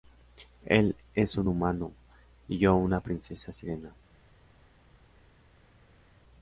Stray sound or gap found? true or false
false